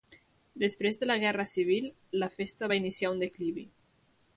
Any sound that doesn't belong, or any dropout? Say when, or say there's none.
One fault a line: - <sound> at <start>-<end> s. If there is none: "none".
none